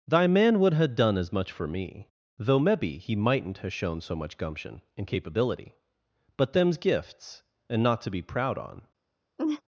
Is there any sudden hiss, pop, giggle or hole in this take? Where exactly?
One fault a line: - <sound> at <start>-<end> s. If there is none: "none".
- laugh at 9.4-9.6 s